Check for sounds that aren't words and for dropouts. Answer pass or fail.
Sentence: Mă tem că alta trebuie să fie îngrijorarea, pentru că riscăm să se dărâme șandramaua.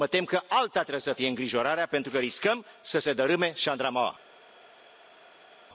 pass